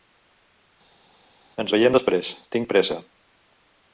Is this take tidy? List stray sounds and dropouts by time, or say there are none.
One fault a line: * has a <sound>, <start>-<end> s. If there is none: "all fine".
all fine